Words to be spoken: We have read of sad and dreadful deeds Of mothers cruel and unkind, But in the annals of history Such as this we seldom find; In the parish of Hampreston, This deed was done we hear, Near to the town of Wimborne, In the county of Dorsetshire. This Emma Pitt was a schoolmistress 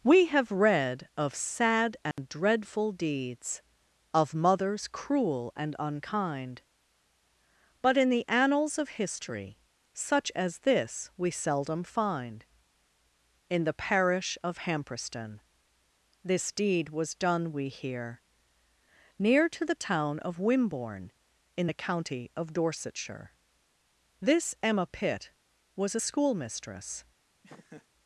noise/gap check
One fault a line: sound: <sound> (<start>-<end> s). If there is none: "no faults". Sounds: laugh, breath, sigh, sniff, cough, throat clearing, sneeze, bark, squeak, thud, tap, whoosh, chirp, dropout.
sound: dropout (2.1-2.2 s)
sound: laugh (27.4-27.9 s)